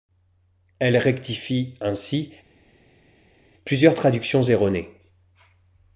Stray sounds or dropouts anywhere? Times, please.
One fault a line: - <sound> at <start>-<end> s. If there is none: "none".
none